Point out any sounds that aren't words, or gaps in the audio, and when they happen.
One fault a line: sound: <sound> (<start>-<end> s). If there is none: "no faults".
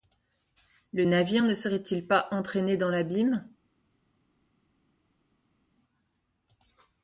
no faults